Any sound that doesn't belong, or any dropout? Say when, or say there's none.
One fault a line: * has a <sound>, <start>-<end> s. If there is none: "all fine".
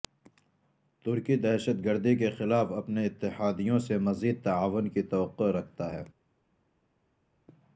all fine